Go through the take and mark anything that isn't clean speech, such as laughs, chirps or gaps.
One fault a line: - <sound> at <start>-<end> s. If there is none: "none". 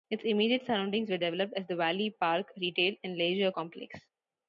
none